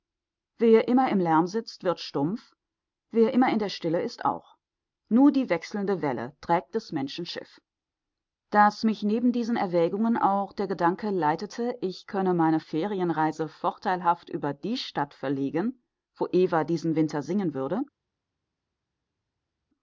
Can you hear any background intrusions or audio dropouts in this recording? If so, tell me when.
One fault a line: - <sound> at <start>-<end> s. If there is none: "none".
none